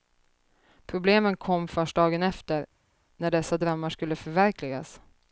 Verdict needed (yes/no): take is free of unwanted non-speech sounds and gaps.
yes